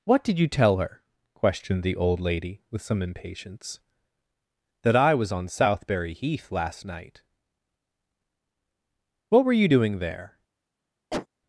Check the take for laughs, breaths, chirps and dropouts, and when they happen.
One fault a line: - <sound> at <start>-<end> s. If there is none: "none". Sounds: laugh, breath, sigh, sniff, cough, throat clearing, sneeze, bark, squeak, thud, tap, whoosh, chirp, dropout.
- cough at 11.1-11.3 s